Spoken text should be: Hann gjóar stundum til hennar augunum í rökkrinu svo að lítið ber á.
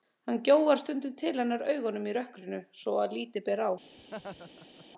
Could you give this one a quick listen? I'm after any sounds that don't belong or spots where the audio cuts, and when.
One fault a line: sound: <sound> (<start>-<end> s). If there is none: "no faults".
sound: laugh (4.0-4.9 s)